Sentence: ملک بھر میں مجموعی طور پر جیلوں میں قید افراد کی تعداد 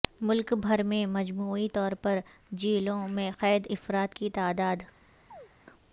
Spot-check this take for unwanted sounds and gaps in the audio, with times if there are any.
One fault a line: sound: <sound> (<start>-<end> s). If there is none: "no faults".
sound: chirp (5.3-5.5 s)